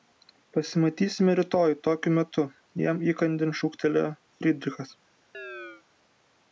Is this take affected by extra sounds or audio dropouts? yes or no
yes